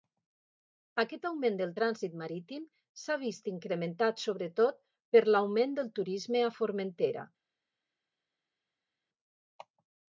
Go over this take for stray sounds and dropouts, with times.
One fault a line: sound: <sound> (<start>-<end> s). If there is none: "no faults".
no faults